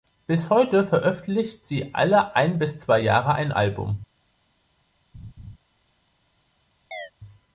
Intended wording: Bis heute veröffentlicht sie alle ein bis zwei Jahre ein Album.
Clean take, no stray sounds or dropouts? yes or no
no